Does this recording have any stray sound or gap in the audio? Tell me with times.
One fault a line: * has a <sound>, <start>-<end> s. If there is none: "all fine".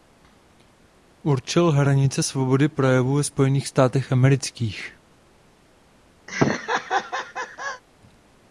* has a laugh, 6.3-7.8 s